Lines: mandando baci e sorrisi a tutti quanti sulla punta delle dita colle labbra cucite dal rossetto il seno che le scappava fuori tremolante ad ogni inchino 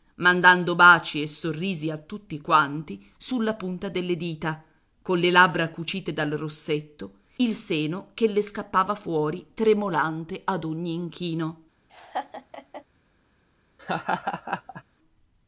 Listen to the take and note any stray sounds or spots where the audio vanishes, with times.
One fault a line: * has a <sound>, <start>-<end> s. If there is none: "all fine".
* has a laugh, 11.9-12.8 s
* has a laugh, 13.8-14.8 s